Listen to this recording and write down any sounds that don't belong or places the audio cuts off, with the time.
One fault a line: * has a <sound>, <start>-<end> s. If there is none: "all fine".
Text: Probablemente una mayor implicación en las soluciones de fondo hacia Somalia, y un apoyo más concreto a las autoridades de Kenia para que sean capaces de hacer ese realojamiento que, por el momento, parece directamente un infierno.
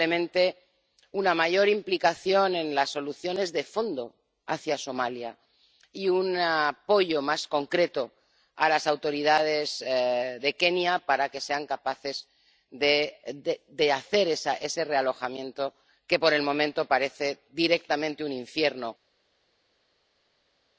all fine